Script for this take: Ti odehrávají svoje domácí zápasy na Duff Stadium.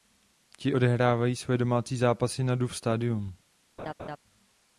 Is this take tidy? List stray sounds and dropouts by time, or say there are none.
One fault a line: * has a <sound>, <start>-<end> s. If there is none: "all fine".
* has a laugh, 3.8-4.2 s